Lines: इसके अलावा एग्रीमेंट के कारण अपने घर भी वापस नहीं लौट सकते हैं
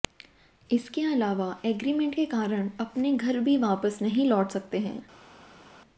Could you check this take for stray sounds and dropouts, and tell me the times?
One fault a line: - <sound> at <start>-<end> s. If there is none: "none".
none